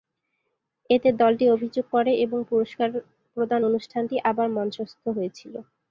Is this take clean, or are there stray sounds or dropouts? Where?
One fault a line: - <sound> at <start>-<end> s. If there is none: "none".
none